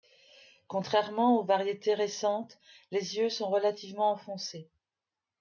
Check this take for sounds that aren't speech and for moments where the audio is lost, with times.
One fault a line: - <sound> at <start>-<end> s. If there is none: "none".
none